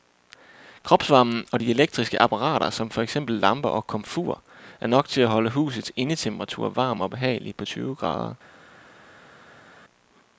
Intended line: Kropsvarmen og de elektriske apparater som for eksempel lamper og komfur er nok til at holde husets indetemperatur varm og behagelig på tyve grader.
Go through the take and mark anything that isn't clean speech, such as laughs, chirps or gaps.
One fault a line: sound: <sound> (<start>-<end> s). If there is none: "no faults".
no faults